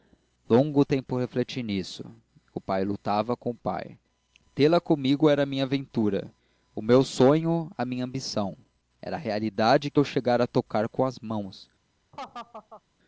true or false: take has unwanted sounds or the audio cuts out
true